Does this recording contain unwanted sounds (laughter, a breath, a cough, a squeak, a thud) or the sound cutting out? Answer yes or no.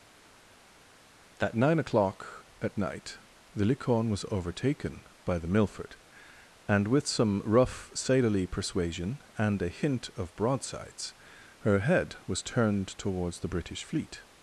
no